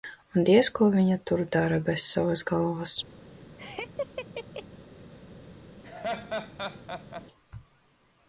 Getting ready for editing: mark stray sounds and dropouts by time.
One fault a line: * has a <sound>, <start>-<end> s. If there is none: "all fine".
* has a laugh, 3.6-4.6 s
* has a laugh, 5.8-7.3 s